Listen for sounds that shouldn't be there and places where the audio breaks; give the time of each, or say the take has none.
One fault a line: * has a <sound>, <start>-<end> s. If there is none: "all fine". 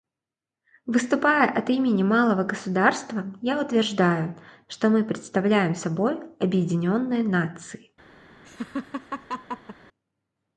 * has a laugh, 8.4-9.8 s